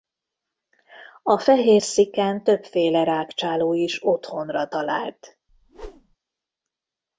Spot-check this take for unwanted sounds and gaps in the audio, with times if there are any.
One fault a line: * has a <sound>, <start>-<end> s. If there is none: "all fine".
* has a whoosh, 5.5-6.2 s